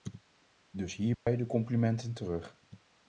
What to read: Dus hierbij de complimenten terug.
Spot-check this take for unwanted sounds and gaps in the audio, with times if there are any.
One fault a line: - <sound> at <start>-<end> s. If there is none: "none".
- dropout at 1.1-1.3 s